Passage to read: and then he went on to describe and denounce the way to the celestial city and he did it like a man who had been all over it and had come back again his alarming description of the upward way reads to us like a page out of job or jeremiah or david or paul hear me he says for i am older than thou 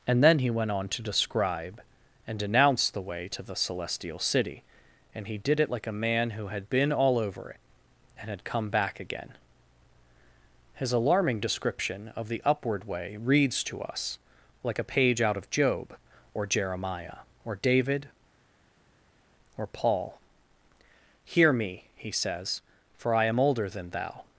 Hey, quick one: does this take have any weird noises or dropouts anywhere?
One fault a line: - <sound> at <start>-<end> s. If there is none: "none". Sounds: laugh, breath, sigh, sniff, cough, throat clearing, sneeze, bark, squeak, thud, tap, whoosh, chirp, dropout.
none